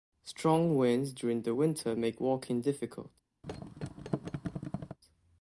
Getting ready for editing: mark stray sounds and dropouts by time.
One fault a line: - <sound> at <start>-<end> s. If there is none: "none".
- thud at 3.4-5.0 s